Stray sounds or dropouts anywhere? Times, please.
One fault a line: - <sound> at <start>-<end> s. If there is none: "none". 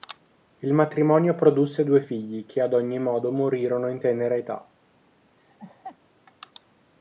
- laugh at 5.4-6.0 s